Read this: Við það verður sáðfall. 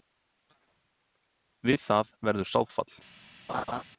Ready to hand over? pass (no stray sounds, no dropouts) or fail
fail